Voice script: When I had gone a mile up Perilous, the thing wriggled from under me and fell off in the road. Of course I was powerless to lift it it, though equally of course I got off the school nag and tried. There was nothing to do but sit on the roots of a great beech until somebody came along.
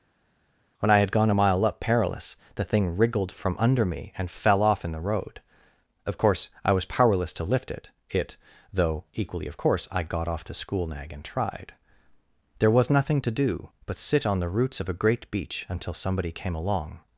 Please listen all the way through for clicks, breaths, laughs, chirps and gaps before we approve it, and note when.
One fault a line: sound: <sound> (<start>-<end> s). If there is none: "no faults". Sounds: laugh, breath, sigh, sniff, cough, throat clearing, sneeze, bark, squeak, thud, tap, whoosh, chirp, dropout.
no faults